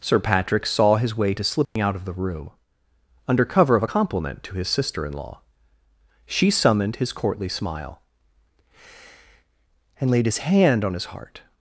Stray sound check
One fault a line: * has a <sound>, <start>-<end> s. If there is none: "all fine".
* has a dropout, 1.6-1.8 s